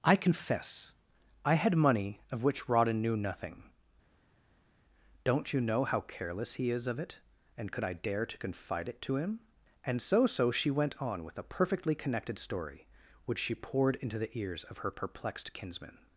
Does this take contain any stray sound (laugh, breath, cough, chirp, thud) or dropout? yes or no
no